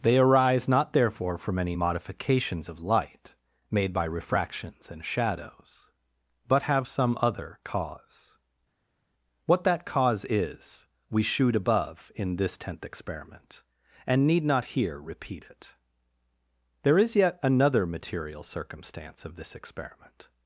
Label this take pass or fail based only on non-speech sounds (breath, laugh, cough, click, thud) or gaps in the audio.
pass